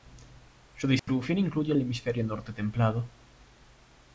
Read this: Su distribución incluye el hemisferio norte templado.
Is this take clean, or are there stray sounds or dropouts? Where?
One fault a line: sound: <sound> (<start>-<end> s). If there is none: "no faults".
sound: dropout (1.0-1.1 s)